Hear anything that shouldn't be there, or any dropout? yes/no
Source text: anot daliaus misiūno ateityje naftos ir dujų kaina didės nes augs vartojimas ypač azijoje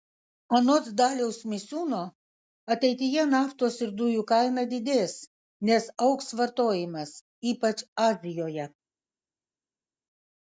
no